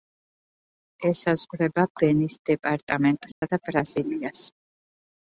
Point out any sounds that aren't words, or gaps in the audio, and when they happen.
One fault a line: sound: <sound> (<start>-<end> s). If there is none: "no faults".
sound: dropout (3.3-3.4 s)